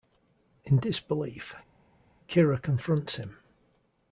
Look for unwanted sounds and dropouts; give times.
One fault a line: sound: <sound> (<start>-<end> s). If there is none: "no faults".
no faults